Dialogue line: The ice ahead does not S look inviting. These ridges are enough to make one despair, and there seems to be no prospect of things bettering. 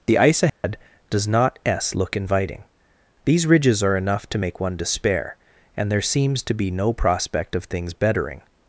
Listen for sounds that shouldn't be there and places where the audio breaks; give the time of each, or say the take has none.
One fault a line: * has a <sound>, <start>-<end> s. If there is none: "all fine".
* has a dropout, 0.5-0.6 s